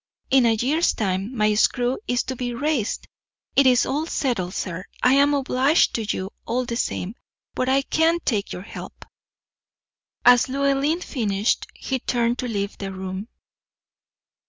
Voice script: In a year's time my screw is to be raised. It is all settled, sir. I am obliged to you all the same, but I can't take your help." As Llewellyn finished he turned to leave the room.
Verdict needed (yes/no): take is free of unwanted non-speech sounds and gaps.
yes